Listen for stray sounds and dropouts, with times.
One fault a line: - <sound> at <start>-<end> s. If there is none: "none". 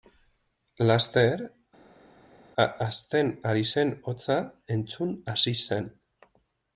none